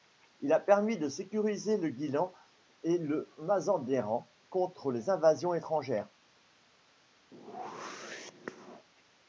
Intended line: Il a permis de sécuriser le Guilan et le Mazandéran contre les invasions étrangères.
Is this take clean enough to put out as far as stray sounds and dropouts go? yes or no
no